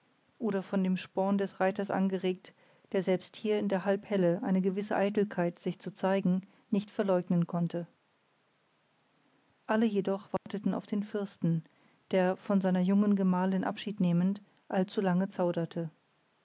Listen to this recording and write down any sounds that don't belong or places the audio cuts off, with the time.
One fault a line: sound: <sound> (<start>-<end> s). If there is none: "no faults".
sound: dropout (10.4-10.5 s)